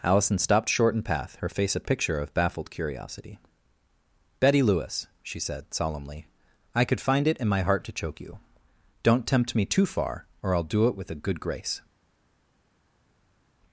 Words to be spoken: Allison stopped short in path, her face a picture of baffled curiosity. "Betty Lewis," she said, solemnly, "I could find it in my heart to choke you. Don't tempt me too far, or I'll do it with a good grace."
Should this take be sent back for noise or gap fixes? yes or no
no